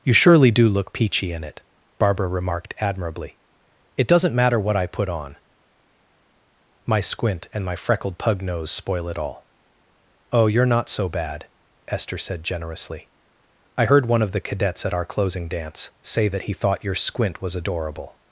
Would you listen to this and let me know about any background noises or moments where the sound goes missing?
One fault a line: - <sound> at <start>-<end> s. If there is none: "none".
none